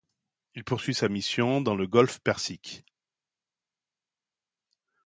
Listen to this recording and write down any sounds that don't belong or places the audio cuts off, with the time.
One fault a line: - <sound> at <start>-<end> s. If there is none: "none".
none